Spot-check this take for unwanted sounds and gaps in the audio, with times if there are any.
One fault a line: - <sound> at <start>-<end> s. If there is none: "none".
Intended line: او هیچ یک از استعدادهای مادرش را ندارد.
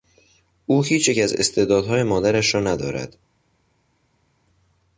none